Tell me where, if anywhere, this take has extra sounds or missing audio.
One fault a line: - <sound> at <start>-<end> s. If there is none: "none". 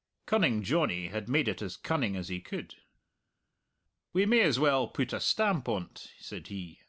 none